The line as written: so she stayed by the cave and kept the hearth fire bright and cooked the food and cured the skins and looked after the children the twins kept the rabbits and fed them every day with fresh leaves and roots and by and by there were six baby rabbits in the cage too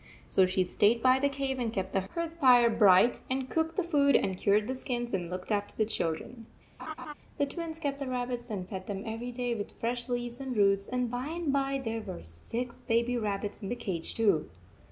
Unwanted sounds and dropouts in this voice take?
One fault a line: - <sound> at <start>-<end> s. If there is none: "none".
- laugh at 6.8-7.1 s